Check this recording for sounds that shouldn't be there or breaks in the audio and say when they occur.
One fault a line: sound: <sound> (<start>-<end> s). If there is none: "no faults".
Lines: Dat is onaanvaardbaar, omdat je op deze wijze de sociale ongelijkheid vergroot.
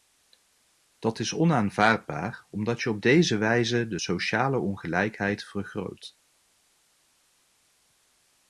no faults